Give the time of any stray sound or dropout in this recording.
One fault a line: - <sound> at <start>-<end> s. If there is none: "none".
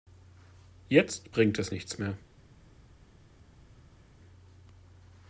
none